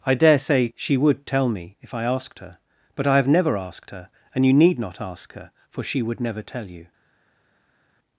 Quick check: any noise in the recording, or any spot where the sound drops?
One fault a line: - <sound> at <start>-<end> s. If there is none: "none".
none